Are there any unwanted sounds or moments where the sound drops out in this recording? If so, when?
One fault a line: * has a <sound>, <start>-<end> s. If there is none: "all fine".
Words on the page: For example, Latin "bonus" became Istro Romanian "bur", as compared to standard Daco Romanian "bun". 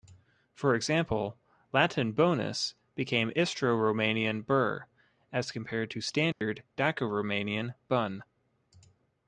* has a dropout, 6.3-6.4 s